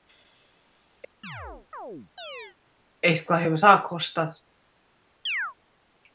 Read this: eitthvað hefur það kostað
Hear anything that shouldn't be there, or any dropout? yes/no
yes